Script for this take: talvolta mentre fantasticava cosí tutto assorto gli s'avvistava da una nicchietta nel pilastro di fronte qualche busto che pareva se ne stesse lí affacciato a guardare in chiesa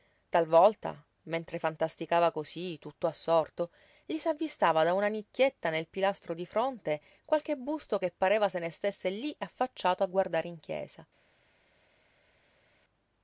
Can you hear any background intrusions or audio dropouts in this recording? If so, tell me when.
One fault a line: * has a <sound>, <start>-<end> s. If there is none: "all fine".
all fine